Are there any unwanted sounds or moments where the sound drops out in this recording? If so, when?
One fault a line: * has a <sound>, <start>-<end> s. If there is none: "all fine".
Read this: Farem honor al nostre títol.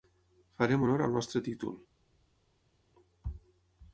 all fine